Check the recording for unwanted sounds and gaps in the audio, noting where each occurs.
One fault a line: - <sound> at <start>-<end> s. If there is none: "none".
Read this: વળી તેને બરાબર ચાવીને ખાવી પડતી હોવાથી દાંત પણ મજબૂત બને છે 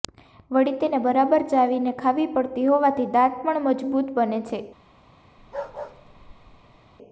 - bark at 5.4-6.8 s